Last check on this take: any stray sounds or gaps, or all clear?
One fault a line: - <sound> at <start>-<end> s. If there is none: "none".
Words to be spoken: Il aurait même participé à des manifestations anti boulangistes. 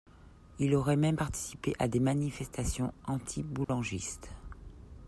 - dropout at 3.6-3.7 s